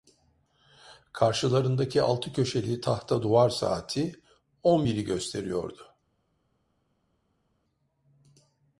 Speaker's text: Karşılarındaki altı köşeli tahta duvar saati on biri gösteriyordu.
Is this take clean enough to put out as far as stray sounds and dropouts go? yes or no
yes